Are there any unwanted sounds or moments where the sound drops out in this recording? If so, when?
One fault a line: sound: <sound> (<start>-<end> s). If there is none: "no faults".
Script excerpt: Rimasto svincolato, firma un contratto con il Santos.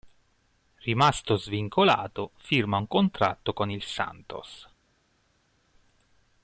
no faults